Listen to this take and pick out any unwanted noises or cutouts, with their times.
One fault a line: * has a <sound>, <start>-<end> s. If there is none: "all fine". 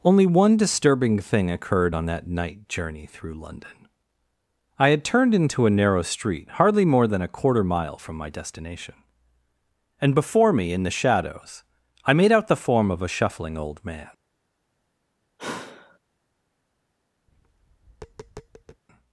* has a sigh, 15.4-16.0 s
* has a tap, 17.3-18.8 s